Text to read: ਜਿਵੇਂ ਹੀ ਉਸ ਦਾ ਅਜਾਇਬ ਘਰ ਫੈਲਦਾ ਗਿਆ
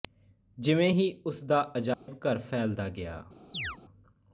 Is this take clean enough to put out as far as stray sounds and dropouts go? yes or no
no